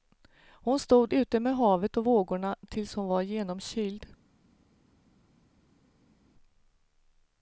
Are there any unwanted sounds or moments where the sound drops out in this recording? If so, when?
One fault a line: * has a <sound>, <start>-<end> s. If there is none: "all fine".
all fine